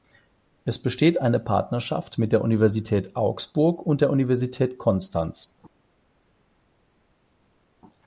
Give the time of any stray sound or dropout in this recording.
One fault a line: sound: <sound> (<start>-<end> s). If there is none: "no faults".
no faults